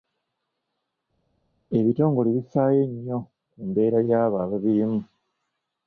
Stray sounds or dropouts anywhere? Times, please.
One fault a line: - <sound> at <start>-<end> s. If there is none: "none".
none